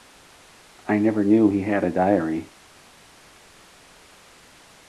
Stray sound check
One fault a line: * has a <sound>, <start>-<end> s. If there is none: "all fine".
all fine